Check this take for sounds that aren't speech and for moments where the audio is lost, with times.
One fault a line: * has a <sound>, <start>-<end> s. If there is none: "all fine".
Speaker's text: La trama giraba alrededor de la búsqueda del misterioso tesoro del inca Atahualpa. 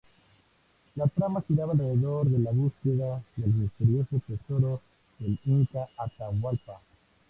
all fine